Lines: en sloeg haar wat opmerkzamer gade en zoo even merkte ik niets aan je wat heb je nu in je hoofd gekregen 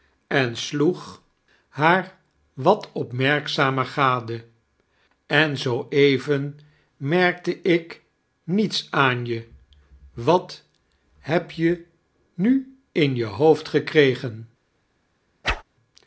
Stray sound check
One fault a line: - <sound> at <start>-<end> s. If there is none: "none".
- whoosh at 15.4-15.6 s